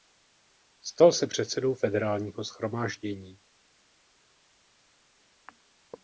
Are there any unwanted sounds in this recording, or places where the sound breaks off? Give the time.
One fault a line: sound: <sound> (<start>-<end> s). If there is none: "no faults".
no faults